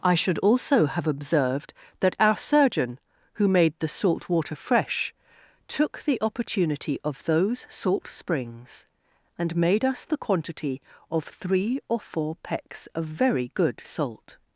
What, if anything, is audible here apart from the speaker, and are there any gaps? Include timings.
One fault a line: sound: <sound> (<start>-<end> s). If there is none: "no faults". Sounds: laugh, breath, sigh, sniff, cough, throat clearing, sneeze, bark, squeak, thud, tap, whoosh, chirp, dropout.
no faults